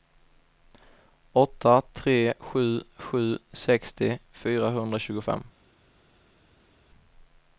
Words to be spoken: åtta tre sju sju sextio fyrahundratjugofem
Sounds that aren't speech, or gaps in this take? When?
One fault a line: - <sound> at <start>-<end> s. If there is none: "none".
none